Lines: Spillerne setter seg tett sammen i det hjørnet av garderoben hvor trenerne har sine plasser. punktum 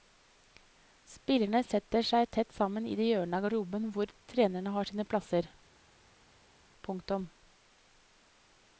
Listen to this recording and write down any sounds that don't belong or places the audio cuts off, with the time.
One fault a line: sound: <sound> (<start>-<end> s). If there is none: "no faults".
no faults